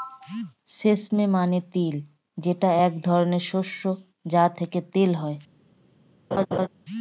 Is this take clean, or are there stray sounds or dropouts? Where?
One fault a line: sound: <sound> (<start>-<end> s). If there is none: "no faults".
sound: laugh (6.3-6.7 s)